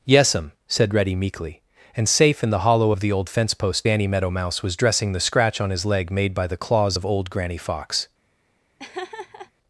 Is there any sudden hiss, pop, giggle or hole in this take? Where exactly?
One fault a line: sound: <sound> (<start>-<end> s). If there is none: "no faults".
sound: laugh (8.8-9.5 s)